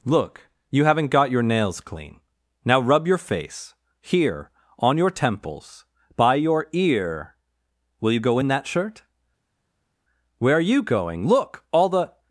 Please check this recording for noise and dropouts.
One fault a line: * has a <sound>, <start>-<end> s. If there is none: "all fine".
all fine